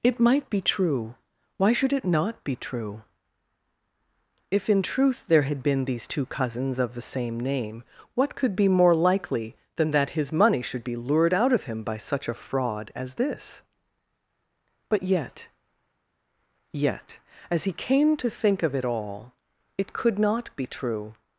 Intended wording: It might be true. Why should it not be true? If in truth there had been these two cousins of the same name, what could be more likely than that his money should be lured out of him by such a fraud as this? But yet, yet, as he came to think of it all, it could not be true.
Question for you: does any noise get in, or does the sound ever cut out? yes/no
no